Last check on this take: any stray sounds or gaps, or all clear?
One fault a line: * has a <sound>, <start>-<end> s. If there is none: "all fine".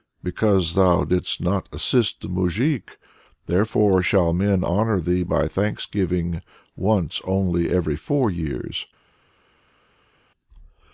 all fine